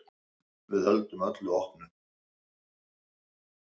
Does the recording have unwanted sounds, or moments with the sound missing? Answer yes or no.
no